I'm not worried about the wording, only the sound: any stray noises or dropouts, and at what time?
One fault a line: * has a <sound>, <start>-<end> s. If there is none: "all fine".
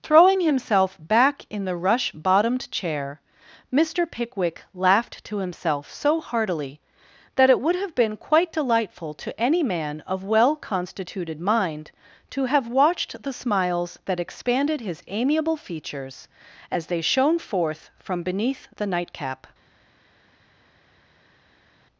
all fine